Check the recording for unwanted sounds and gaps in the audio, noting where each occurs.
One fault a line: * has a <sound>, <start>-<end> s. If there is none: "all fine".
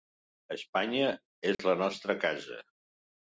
* has a dropout, 1.5-1.6 s